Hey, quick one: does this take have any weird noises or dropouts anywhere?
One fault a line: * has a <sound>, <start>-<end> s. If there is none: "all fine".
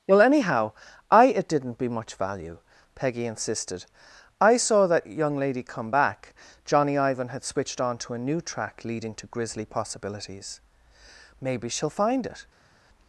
all fine